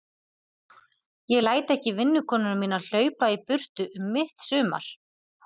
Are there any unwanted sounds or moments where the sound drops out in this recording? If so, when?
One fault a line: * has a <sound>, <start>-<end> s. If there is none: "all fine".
all fine